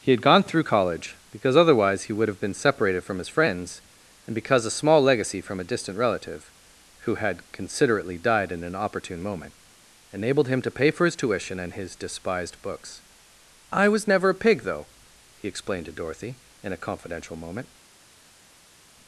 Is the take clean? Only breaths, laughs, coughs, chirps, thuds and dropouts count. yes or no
yes